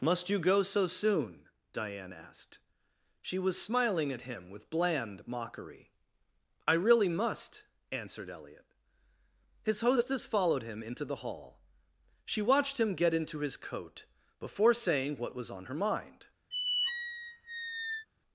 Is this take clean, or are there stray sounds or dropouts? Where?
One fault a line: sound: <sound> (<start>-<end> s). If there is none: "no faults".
sound: squeak (16.5-18.1 s)